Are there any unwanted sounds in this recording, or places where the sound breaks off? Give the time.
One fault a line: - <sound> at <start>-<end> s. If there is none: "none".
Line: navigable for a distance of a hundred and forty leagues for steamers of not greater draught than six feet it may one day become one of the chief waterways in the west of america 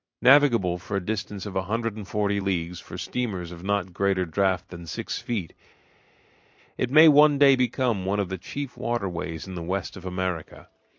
none